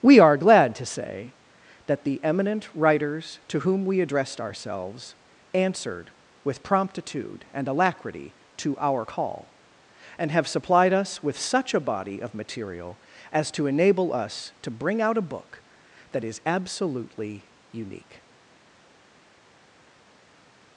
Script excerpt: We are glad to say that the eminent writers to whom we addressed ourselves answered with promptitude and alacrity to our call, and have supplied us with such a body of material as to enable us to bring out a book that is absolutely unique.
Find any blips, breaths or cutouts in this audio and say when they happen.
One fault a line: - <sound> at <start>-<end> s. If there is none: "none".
none